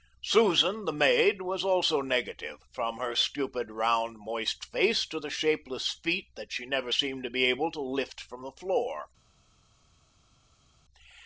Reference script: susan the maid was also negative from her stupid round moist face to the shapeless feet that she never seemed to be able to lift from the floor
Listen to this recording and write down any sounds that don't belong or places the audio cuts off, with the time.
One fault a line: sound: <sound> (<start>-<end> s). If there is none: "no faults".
no faults